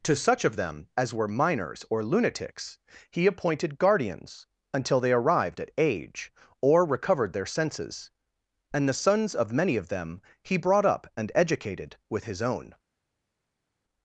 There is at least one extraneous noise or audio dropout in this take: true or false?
false